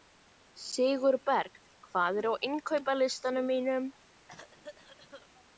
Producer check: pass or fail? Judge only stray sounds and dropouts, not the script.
fail